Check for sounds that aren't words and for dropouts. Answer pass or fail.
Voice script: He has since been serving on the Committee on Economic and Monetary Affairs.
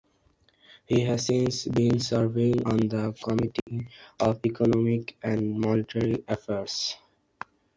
fail